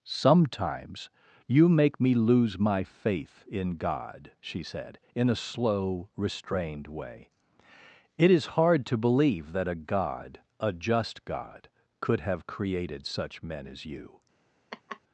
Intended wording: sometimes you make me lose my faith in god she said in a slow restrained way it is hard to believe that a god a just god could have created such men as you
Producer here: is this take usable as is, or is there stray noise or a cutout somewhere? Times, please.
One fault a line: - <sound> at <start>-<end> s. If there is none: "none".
- laugh at 14.7-15.0 s